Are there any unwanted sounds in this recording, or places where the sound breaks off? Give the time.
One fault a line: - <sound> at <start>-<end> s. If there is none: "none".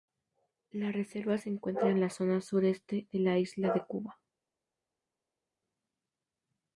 none